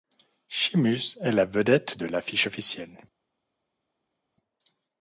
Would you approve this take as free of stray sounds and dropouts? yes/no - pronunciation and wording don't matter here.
yes